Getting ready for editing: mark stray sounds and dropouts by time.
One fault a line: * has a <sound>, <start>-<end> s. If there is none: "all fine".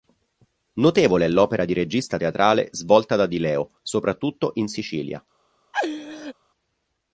* has a laugh, 5.7-6.3 s